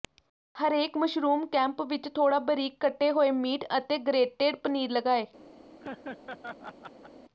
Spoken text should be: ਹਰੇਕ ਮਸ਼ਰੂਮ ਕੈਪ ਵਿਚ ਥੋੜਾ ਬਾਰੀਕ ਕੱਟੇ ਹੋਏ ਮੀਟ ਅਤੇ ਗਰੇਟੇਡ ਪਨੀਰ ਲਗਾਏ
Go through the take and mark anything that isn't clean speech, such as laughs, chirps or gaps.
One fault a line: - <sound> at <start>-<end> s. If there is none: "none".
- laugh at 5.8-7.1 s